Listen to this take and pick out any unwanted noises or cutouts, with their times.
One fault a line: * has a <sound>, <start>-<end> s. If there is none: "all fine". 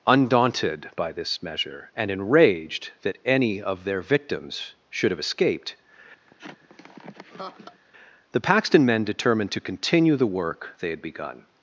* has a laugh, 6.3-7.8 s